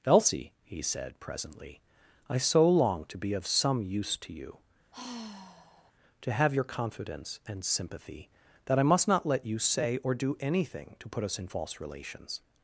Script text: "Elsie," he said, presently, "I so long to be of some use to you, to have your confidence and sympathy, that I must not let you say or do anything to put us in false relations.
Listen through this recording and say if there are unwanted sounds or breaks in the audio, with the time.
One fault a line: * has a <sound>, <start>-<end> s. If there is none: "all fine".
* has a sigh, 4.9-5.9 s